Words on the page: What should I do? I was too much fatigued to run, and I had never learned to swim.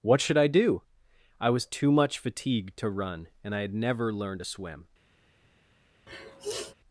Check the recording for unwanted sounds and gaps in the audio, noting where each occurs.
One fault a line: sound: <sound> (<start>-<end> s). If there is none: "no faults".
sound: sniff (6.1-6.7 s)